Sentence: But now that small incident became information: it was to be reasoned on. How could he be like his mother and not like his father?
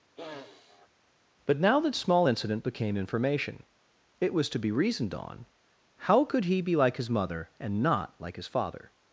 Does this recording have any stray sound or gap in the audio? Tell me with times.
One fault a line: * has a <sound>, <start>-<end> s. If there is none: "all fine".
* has a sniff, 0.2-0.9 s